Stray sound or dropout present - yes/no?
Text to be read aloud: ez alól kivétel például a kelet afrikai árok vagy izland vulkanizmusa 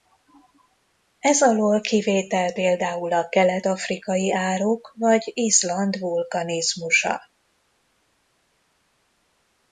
no